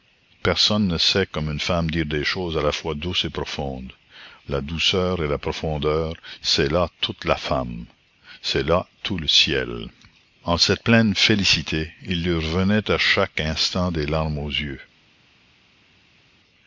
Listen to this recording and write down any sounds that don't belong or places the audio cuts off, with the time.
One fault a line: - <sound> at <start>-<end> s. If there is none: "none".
none